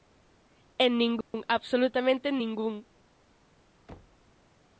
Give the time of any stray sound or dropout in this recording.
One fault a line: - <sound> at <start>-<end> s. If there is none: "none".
- dropout at 1.2-1.3 s
- thud at 3.9-4.3 s